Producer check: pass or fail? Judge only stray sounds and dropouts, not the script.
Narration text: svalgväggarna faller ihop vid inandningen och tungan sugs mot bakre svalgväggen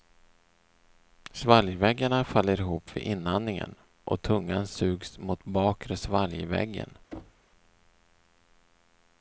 fail